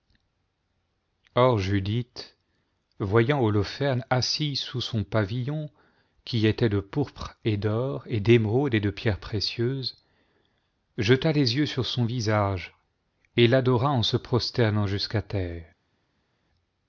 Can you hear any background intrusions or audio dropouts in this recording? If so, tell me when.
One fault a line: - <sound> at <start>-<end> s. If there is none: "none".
none